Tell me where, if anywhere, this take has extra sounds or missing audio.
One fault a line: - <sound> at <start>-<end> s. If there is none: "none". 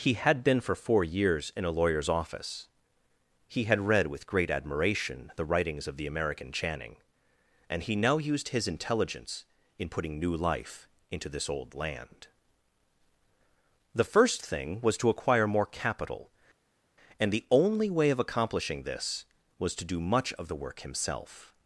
none